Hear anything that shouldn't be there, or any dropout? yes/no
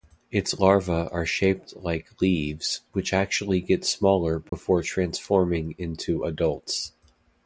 yes